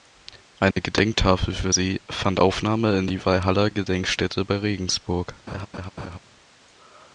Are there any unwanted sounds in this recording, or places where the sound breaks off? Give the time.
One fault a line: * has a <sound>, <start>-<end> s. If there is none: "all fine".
* has a dropout, 0.7-0.8 s
* has a laugh, 5.5-6.2 s